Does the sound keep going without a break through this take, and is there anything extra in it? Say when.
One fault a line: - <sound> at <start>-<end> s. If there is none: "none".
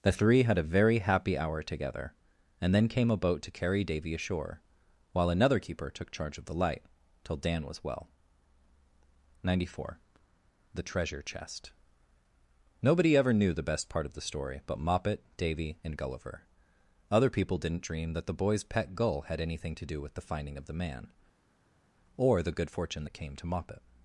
none